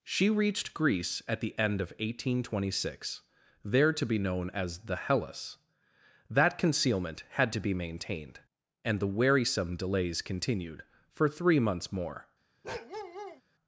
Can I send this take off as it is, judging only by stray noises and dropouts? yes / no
no